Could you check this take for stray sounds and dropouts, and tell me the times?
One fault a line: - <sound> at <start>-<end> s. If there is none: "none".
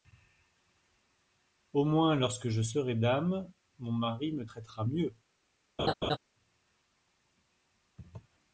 - laugh at 5.8-6.2 s